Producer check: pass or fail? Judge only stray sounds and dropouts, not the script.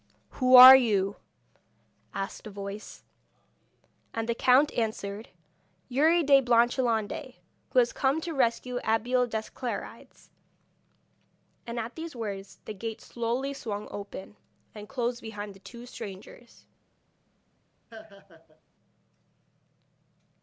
fail